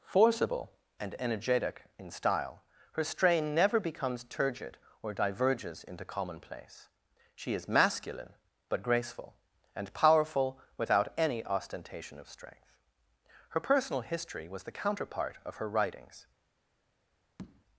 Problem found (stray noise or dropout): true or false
true